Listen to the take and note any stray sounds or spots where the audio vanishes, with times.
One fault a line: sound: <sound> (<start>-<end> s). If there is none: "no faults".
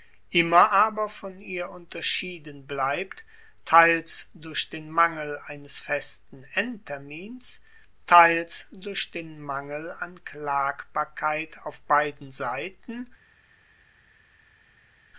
no faults